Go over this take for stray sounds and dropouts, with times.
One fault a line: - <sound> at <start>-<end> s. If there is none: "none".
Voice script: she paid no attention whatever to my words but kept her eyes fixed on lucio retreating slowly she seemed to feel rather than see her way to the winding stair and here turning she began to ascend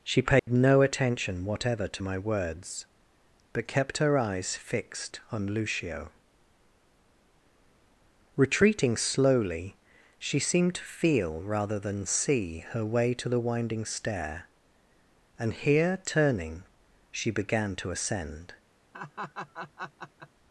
- dropout at 0.4-0.5 s
- laugh at 18.9-20.3 s